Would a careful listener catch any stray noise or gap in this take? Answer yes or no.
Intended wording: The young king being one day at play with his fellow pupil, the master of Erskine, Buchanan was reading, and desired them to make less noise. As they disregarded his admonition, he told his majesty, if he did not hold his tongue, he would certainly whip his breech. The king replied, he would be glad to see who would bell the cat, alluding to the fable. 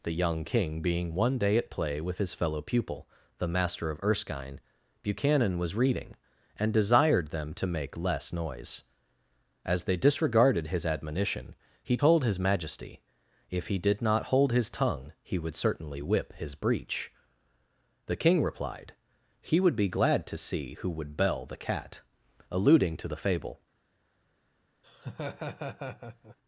yes